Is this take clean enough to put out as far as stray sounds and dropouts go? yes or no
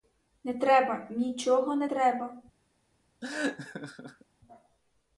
no